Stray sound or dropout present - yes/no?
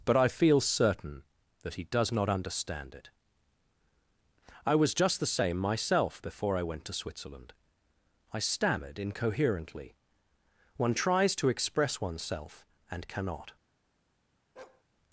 yes